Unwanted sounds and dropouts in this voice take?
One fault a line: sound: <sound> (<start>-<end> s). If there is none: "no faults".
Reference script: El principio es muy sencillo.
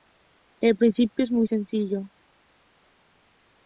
no faults